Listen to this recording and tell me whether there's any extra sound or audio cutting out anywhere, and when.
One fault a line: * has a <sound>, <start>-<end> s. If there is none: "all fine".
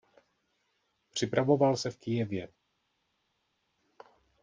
all fine